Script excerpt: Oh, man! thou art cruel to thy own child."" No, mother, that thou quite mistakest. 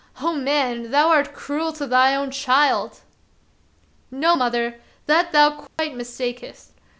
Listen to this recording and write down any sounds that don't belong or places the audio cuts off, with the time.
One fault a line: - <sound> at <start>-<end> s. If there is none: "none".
- dropout at 5.7-5.8 s